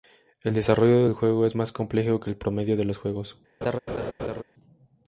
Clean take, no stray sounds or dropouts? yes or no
no